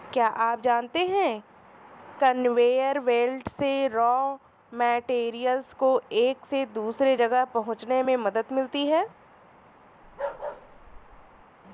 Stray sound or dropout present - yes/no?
yes